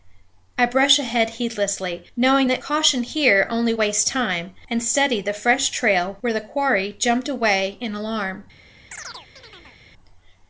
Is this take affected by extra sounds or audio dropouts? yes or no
yes